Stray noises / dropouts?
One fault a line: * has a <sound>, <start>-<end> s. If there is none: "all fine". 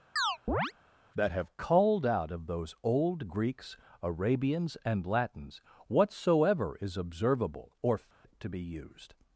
* has a chirp, 0.2-0.7 s
* has a dropout, 8.1-8.2 s